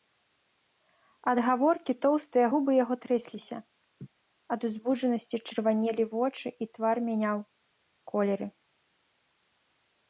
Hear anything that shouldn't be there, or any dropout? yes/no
yes